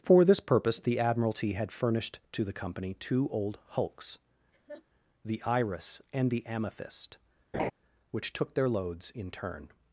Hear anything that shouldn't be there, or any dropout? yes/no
yes